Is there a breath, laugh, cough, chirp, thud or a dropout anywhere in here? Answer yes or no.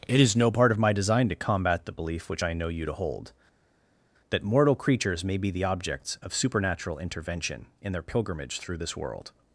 no